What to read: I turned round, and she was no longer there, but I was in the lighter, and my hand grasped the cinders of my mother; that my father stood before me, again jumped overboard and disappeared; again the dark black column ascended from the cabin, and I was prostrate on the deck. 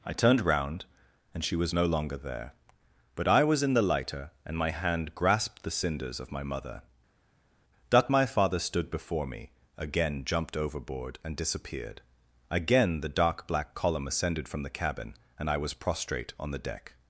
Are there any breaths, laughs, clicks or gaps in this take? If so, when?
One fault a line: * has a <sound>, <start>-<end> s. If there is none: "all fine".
all fine